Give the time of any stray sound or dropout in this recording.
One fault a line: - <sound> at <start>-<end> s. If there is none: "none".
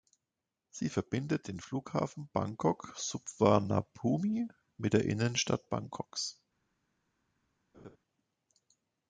- laugh at 7.7-8.0 s